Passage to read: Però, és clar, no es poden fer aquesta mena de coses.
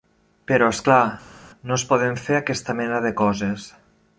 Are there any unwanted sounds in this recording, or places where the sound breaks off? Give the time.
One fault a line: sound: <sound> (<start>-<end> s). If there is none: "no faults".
no faults